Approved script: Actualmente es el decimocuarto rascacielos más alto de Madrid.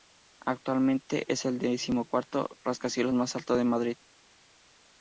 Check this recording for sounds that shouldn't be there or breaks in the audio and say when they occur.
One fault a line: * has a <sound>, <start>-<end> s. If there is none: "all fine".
all fine